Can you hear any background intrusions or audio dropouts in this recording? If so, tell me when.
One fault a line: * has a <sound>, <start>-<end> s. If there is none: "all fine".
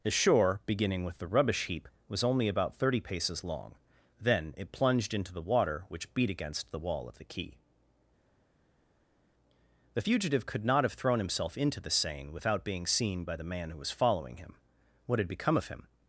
all fine